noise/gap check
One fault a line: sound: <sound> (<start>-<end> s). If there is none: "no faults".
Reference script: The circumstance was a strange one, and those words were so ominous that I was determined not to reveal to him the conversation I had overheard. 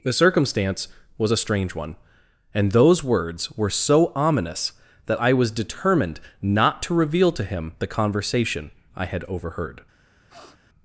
sound: sniff (10.3-10.6 s)